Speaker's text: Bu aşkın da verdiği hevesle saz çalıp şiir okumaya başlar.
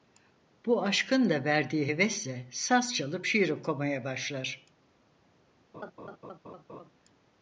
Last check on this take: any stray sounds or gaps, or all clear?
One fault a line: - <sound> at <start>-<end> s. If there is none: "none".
- laugh at 5.7-6.9 s